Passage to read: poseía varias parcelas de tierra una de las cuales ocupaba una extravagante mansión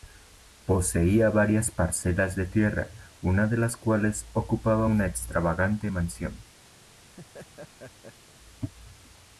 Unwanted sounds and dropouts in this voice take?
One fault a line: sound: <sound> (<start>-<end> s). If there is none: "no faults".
sound: laugh (6.8-8.3 s)